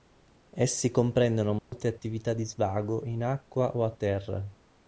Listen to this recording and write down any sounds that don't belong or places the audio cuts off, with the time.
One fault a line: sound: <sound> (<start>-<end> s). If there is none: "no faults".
sound: dropout (1.6-1.7 s)